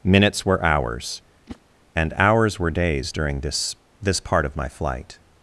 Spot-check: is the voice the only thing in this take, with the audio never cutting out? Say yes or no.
no